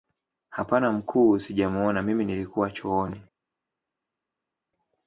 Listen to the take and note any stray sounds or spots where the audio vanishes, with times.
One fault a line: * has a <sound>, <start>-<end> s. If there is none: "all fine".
all fine